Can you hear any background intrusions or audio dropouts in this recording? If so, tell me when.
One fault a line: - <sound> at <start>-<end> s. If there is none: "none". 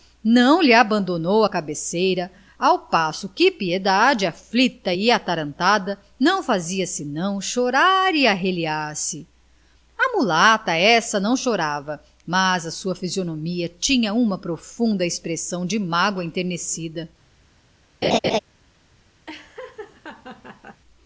- laugh at 18.0-18.4 s
- laugh at 19.3-20.8 s